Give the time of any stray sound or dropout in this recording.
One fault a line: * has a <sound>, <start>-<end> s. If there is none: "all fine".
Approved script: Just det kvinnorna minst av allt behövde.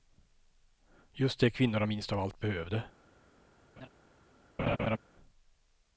* has a laugh, 3.8-3.9 s
* has a laugh, 4.6-5.0 s